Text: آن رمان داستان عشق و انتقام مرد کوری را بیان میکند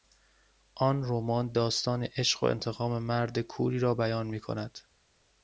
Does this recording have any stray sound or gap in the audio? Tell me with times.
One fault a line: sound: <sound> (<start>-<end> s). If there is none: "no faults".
no faults